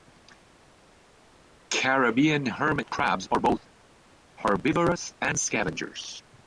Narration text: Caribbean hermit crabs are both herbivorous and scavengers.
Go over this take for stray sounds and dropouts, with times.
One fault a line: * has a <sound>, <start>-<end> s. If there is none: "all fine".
all fine